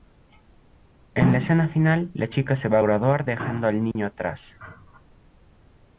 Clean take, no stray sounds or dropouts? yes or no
no